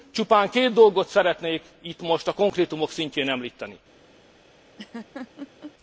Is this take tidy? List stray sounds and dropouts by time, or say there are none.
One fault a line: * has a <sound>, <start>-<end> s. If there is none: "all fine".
* has a laugh, 4.8-5.7 s